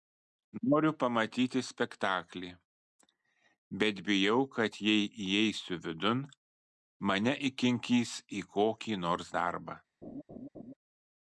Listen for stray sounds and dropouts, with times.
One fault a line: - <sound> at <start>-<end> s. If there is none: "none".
- laugh at 10.0-10.7 s